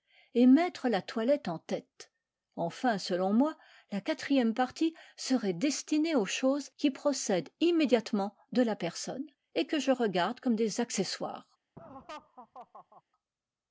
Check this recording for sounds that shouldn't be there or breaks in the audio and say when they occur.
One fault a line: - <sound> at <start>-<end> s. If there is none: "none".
- laugh at 11.8-13.0 s